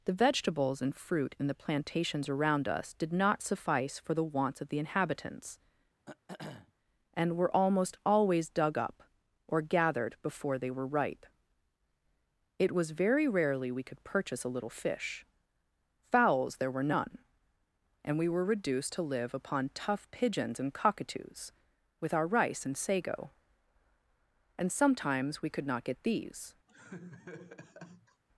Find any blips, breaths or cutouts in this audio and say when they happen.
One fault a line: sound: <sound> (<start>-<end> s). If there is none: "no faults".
sound: throat clearing (6.1-6.7 s)
sound: laugh (26.7-28.2 s)